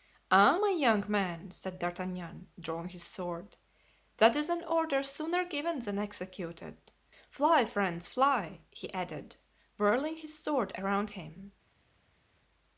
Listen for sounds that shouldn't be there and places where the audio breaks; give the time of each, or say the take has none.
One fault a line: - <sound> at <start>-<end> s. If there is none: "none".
none